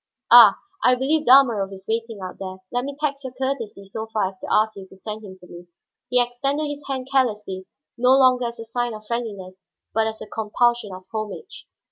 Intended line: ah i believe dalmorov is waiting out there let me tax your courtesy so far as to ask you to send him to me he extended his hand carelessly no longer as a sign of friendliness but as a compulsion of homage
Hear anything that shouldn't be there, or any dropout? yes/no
no